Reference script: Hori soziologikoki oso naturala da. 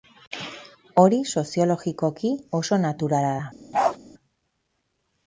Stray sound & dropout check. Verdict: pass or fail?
fail